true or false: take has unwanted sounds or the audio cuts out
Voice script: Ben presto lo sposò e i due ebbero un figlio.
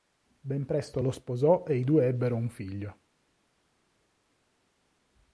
false